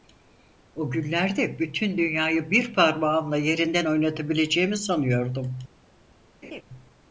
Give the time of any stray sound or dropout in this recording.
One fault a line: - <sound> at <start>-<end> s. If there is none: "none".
- laugh at 6.4-6.6 s